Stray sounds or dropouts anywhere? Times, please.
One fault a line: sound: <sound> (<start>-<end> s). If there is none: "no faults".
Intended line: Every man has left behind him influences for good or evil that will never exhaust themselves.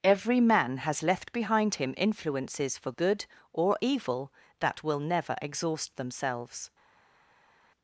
no faults